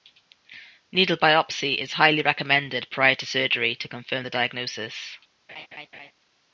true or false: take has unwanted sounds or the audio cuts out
true